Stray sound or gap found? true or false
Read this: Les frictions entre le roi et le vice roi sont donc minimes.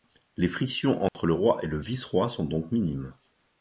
true